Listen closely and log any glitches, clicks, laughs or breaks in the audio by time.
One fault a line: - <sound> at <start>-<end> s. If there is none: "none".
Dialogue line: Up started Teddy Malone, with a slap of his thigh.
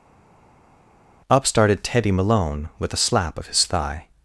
none